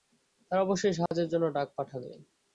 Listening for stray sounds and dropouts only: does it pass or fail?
fail